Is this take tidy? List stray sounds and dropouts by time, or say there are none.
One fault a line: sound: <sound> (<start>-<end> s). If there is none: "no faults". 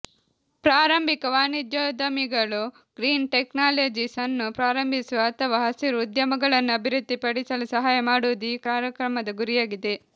no faults